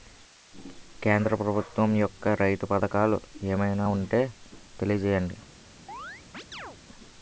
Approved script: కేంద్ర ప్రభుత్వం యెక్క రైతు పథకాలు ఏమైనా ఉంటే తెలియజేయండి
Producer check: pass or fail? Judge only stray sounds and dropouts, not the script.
fail